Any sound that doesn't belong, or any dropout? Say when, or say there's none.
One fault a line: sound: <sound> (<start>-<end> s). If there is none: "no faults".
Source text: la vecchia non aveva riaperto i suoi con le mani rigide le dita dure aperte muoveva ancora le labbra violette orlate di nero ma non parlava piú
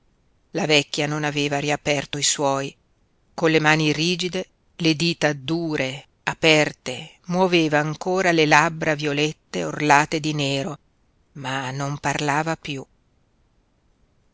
no faults